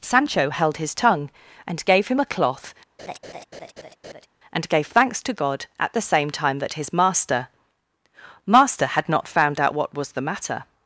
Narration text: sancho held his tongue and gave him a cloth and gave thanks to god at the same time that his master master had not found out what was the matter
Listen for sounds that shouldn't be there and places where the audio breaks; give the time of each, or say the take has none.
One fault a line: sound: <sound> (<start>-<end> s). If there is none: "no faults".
sound: laugh (3.0-4.3 s)